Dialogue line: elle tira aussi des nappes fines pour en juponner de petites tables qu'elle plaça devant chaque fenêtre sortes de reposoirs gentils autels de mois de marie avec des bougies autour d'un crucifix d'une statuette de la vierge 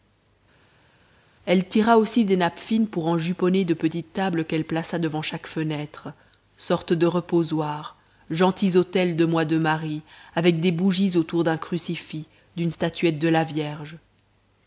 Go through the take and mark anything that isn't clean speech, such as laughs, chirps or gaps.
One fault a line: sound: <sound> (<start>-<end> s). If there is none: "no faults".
no faults